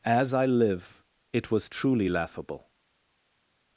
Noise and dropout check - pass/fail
pass